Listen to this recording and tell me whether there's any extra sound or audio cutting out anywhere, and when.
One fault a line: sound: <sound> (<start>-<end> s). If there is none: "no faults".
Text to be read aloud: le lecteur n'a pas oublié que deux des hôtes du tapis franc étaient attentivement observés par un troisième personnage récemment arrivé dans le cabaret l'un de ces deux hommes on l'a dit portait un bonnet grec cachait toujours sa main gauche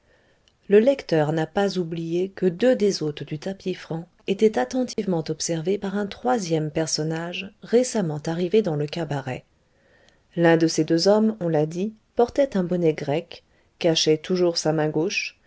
sound: dropout (4.9-5.0 s)